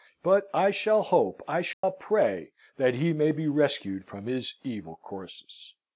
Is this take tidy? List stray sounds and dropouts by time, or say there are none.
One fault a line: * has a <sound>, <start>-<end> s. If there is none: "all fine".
* has a dropout, 1.7-1.8 s